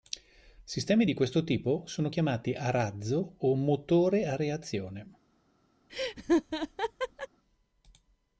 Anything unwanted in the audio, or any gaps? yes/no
yes